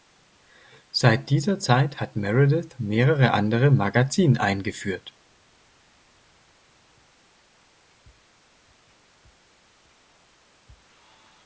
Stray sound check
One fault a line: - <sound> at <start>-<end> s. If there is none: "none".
none